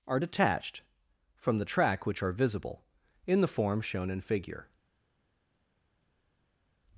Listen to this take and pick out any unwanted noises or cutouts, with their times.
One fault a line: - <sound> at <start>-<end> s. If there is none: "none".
none